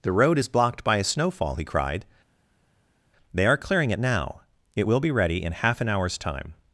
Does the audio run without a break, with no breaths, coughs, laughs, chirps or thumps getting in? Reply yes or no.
yes